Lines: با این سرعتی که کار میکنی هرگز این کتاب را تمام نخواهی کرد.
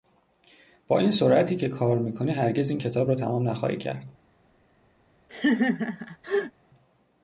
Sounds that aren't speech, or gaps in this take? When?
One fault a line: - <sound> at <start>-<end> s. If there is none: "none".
- laugh at 5.3-6.5 s